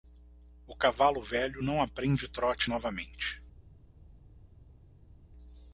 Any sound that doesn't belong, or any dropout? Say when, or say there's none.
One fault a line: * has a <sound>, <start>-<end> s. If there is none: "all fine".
all fine